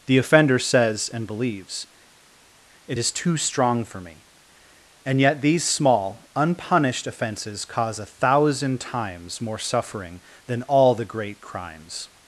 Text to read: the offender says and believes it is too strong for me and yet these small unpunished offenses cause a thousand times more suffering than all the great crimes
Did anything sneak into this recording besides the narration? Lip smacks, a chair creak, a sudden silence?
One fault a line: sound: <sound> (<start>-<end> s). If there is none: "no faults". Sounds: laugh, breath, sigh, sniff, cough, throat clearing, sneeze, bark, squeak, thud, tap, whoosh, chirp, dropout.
no faults